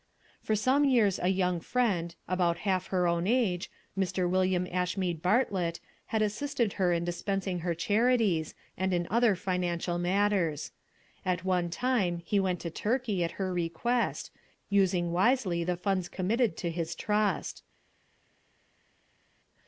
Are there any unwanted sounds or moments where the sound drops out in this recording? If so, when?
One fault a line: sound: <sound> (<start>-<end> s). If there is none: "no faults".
no faults